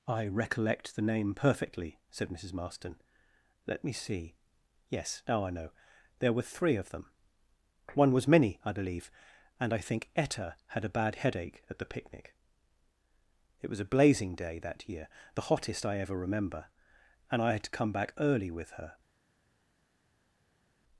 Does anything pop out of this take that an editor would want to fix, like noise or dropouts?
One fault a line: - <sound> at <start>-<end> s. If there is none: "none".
none